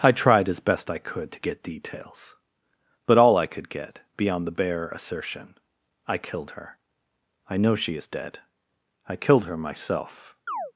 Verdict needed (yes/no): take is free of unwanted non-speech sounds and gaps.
no